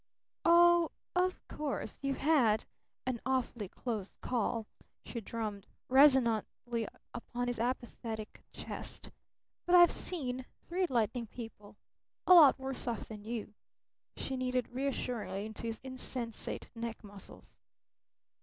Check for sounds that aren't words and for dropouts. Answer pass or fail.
pass